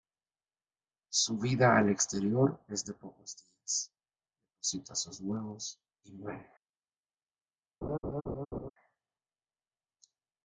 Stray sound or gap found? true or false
true